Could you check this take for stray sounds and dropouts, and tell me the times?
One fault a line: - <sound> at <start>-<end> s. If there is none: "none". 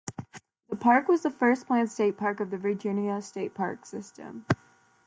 none